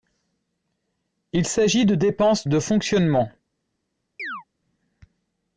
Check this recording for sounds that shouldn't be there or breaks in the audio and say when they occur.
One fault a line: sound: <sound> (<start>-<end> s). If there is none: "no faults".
sound: chirp (4.2-4.4 s)